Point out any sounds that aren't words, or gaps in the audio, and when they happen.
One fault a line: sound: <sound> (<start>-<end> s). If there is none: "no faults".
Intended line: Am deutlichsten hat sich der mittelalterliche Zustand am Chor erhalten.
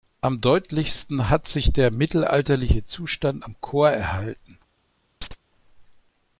sound: chirp (5.2-5.4 s)